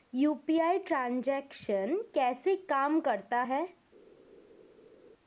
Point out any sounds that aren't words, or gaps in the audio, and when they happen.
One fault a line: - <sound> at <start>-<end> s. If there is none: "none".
none